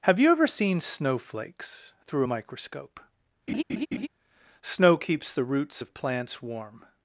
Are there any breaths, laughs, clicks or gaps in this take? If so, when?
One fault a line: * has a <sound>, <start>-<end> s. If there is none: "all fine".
* has a laugh, 3.5-4.1 s